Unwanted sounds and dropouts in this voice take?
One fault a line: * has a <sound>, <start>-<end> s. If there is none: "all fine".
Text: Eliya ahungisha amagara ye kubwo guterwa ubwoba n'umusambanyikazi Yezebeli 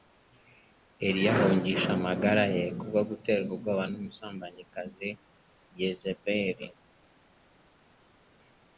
all fine